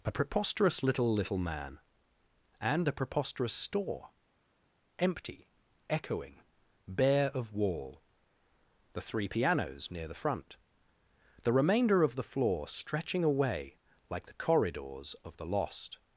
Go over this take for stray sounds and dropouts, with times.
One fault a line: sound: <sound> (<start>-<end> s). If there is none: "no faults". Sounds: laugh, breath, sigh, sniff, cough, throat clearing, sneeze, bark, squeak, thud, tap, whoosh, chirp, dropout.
no faults